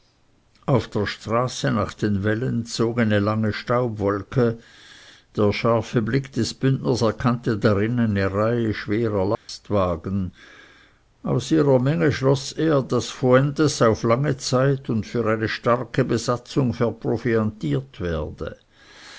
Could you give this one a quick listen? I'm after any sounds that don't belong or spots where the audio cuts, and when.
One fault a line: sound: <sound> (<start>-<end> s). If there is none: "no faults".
sound: dropout (9.3-9.5 s)